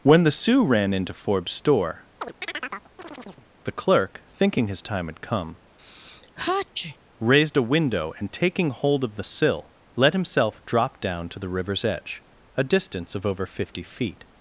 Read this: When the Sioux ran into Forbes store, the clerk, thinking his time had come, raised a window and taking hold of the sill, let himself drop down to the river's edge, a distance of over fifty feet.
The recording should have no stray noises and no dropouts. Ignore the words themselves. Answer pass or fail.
fail